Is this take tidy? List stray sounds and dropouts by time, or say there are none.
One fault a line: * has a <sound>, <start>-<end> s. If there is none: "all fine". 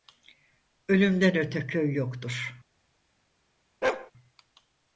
* has a bark, 3.8-4.1 s